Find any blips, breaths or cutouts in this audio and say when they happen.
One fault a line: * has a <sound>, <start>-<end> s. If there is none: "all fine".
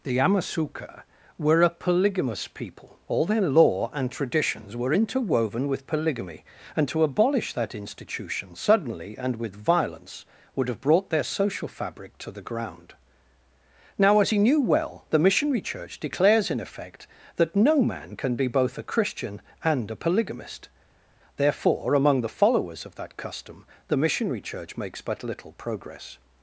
all fine